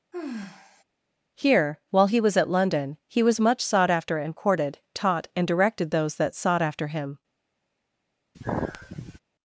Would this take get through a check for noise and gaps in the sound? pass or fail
fail